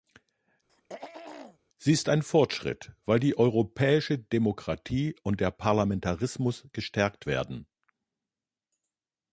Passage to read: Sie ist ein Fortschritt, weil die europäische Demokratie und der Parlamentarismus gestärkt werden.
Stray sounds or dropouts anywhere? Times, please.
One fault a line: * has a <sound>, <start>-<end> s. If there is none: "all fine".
* has a throat clearing, 0.7-1.6 s